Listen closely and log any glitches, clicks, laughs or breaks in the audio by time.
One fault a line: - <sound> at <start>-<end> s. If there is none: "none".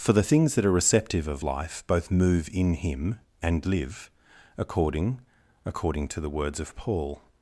none